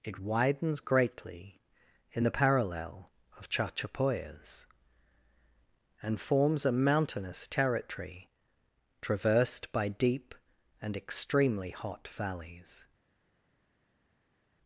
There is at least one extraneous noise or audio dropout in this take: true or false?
false